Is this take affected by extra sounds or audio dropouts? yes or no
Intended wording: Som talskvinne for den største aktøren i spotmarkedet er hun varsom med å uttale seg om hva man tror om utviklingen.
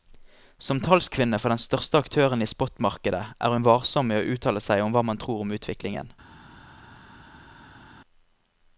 no